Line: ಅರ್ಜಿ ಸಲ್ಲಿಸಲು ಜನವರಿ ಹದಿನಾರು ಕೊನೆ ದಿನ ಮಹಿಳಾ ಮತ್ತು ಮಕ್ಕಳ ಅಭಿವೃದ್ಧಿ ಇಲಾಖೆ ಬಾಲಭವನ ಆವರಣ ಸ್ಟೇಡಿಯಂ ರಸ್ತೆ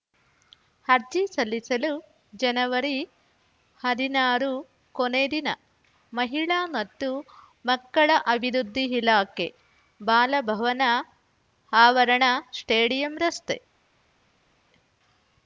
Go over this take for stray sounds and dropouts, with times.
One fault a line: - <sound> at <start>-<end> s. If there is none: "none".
none